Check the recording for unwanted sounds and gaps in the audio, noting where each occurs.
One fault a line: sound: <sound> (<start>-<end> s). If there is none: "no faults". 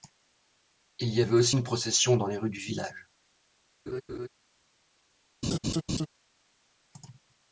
sound: laugh (3.9-4.3 s)
sound: laugh (5.4-6.1 s)